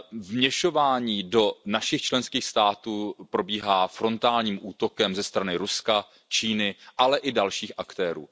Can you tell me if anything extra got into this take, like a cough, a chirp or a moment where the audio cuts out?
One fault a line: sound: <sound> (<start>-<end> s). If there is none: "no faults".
no faults